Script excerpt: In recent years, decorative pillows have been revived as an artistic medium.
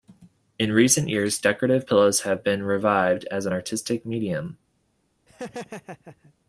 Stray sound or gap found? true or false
true